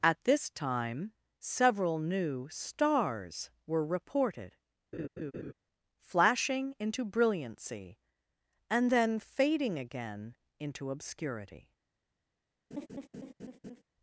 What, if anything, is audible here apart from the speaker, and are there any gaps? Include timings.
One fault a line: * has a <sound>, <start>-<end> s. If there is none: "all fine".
* has a laugh, 4.9-5.5 s
* has a laugh, 12.7-13.8 s